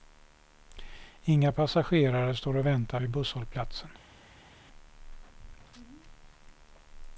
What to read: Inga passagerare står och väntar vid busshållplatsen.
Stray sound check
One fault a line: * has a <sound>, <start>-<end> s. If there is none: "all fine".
all fine